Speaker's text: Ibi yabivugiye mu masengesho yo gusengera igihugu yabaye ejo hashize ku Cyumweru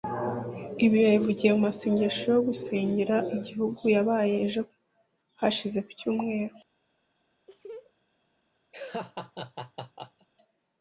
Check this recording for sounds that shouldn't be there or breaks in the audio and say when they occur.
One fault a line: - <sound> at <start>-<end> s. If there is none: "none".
- laugh at 7.5-7.9 s
- laugh at 8.7-10.3 s